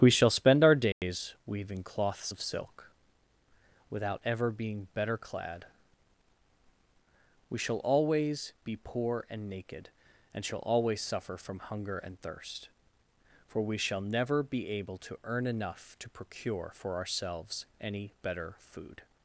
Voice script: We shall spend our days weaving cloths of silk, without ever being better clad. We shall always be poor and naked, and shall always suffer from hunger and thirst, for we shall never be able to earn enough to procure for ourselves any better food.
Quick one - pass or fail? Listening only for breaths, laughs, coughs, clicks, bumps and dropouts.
fail